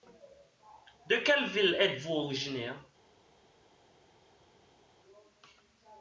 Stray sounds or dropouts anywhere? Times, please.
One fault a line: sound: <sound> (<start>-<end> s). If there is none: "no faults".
no faults